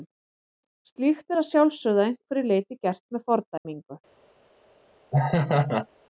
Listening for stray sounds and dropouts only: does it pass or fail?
fail